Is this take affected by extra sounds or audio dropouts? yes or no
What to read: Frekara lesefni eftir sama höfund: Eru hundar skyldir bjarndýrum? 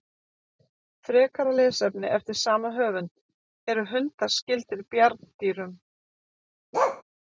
yes